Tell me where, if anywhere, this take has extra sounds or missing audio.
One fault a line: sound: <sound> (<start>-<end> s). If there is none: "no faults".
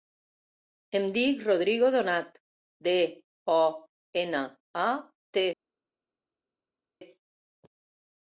no faults